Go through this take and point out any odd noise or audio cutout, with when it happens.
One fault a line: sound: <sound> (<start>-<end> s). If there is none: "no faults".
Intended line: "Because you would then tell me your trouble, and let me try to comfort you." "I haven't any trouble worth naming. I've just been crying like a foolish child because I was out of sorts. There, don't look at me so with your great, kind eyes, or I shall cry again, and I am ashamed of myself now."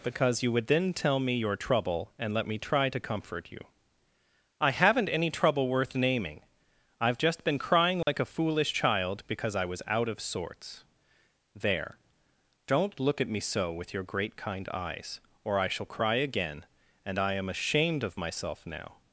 sound: dropout (8.0-8.1 s)